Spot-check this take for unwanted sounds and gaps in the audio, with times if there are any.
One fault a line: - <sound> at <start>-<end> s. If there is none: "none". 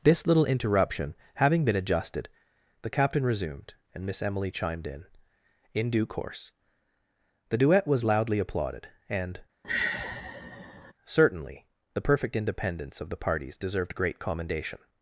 - sigh at 9.6-10.9 s